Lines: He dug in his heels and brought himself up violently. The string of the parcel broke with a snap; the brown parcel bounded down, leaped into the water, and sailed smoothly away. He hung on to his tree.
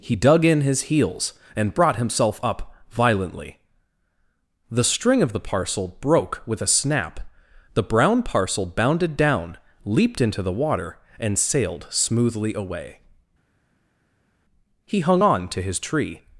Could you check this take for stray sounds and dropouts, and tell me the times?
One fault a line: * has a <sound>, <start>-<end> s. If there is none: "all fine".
all fine